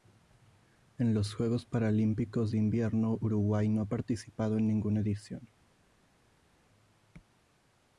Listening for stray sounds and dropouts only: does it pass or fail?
pass